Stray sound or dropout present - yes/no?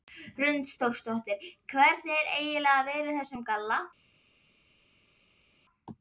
no